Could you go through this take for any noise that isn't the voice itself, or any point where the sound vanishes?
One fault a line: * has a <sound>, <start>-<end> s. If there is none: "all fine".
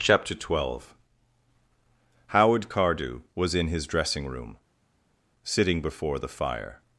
all fine